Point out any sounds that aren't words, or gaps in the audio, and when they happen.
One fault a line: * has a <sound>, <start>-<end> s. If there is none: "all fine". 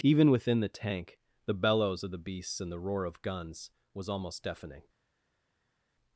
all fine